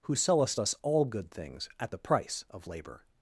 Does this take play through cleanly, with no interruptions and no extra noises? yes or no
yes